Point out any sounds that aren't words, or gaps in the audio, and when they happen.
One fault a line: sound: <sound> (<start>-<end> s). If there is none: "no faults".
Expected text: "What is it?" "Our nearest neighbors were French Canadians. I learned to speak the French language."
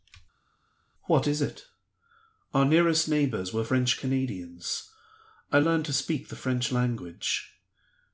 no faults